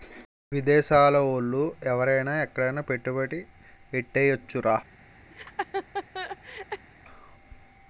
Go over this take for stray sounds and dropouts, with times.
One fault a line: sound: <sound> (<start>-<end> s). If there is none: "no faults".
sound: laugh (5.3-6.9 s)